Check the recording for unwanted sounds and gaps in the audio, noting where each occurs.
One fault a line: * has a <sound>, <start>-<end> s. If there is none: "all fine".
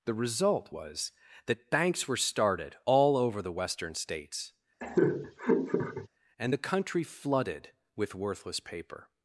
* has a laugh, 4.8-6.1 s